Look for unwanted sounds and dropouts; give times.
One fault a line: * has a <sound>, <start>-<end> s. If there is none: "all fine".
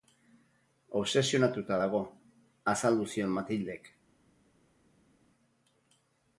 all fine